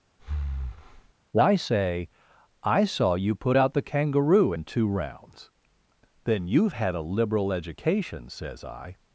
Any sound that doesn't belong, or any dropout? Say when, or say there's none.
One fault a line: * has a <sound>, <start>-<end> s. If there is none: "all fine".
* has a breath, 0.2-1.1 s